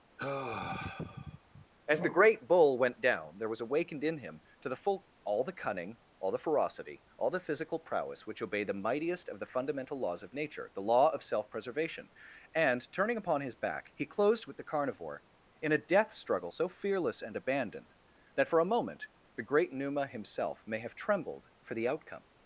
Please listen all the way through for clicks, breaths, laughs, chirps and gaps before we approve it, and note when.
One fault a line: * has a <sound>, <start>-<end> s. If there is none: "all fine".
* has a sigh, 0.2-1.7 s